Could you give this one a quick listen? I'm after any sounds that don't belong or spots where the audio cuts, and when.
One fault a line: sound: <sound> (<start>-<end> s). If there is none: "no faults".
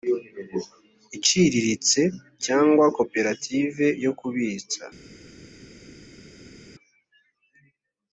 no faults